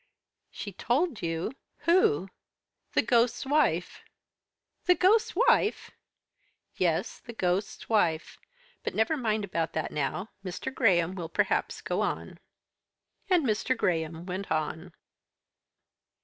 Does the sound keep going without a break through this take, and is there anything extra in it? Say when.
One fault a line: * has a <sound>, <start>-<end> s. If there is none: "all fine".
all fine